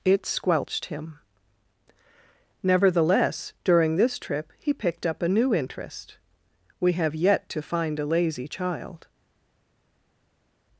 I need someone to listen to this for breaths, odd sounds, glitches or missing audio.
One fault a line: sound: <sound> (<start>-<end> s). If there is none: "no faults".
no faults